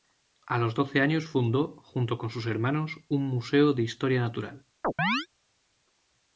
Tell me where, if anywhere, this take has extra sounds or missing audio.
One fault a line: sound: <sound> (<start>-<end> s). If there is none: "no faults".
sound: chirp (4.8-5.3 s)